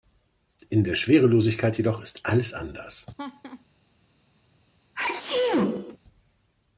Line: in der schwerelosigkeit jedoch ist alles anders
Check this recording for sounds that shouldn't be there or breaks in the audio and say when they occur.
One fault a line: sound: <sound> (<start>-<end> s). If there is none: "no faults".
sound: laugh (3.2-3.7 s)
sound: sneeze (4.9-6.0 s)